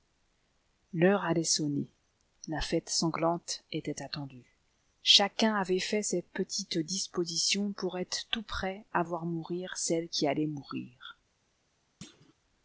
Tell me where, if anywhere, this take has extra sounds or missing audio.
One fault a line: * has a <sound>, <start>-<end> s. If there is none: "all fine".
* has a thud, 12.0-12.3 s